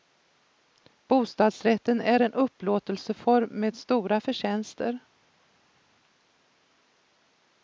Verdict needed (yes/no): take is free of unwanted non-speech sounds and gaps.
yes